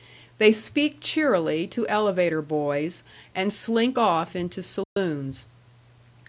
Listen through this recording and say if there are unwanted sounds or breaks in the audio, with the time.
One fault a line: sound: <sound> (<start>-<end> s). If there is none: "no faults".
sound: dropout (4.8-5.0 s)